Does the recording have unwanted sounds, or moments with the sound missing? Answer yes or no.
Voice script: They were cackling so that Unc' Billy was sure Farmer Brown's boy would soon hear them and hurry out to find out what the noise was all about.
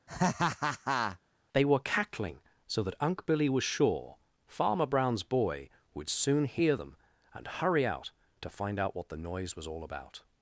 yes